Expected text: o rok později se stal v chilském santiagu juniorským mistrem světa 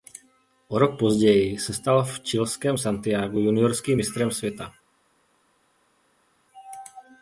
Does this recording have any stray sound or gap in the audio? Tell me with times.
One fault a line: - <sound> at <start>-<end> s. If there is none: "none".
none